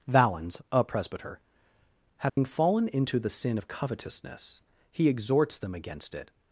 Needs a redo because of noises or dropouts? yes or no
yes